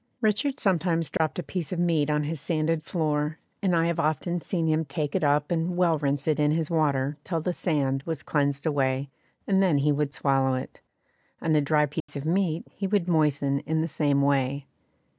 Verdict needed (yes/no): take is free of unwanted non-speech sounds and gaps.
no